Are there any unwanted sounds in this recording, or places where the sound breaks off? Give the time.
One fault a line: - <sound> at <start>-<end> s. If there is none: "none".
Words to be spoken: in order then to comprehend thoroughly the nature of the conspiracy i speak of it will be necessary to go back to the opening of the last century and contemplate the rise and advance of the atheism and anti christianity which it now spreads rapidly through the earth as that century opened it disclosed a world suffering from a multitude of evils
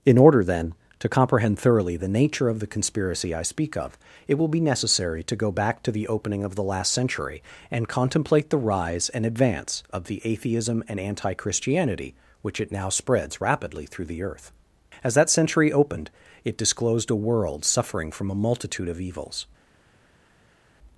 none